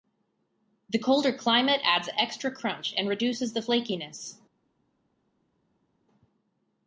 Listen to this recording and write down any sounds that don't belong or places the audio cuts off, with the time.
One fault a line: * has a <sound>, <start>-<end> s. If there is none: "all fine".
all fine